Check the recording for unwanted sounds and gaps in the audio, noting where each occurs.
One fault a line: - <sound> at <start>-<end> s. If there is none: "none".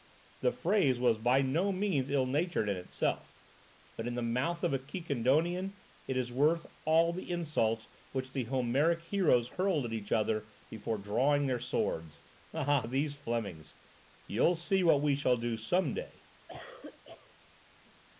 - cough at 16.5-17.3 s